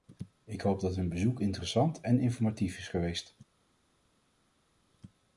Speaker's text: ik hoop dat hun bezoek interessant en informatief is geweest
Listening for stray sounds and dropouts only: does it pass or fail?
pass